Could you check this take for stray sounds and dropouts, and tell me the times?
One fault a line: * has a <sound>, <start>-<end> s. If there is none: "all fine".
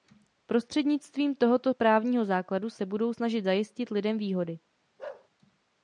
* has a bark, 5.0-5.3 s